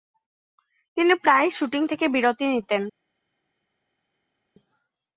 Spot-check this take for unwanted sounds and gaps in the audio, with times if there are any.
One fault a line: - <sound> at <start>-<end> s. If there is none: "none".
none